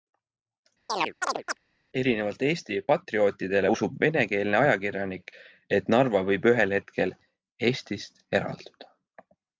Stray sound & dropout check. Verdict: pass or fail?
fail